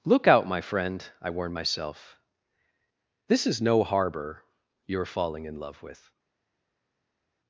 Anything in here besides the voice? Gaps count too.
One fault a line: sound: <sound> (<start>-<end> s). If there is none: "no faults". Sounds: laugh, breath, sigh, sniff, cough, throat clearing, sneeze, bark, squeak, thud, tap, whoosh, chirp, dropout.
no faults